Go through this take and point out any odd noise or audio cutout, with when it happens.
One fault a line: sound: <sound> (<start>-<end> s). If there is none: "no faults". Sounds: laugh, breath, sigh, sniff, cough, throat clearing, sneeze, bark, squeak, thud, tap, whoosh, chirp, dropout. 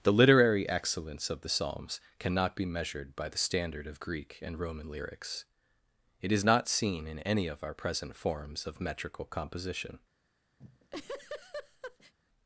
sound: laugh (10.6-12.1 s)